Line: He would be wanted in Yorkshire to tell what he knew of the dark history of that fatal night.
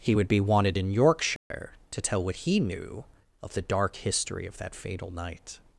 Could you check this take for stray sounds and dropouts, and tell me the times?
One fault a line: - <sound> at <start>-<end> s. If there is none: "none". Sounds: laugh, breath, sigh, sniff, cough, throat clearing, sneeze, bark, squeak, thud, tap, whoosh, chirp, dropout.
- dropout at 1.4-1.5 s